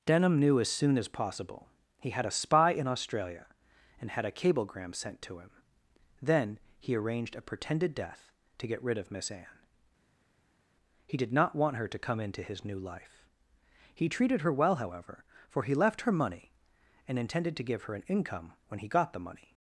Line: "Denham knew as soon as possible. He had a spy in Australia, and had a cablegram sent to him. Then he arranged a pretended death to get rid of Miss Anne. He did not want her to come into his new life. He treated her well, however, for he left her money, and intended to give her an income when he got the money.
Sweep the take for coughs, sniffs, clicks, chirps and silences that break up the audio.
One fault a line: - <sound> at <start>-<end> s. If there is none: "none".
none